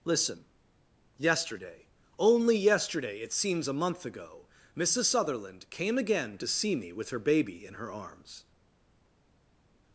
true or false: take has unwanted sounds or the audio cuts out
false